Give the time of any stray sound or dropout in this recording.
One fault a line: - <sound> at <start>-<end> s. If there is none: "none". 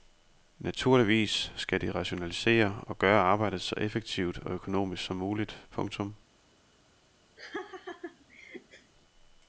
- laugh at 7.4-8.9 s